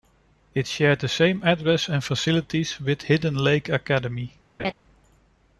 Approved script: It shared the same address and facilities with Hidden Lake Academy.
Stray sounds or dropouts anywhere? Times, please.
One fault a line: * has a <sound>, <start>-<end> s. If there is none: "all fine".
* has a laugh, 4.6-4.7 s